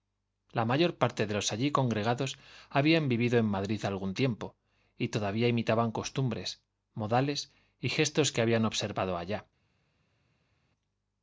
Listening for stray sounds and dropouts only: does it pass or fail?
pass